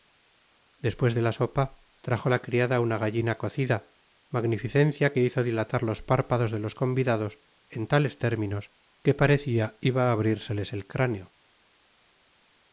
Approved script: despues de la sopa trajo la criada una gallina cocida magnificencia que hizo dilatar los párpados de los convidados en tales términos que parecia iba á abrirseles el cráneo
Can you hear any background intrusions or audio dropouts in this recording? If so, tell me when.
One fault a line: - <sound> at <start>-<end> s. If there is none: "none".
none